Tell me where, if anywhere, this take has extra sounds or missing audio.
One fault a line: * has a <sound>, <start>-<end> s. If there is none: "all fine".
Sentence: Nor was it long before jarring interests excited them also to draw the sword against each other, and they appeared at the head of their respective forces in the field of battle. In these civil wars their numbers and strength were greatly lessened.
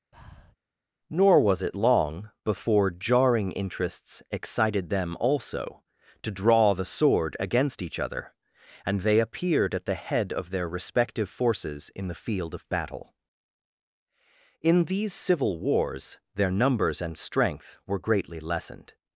* has a breath, 0.1-0.6 s